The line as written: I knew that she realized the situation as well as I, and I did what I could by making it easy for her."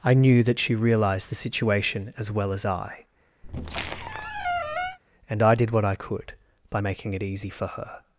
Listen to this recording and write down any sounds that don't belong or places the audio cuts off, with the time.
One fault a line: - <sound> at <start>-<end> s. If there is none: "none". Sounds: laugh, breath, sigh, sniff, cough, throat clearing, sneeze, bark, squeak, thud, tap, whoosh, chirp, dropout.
- squeak at 3.4-5.0 s